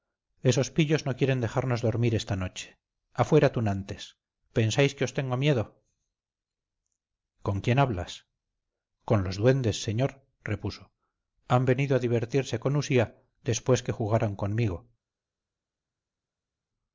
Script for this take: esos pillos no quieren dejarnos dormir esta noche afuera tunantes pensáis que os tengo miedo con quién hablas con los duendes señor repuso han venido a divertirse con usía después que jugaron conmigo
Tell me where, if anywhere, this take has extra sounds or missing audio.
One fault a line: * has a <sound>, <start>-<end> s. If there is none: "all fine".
all fine